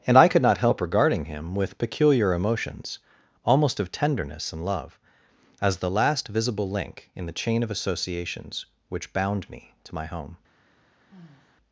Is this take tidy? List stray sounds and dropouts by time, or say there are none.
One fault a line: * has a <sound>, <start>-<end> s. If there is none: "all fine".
* has a sigh, 11.1-11.6 s